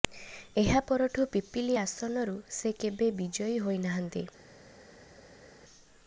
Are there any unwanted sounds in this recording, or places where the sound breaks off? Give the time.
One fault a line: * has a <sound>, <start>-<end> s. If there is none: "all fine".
all fine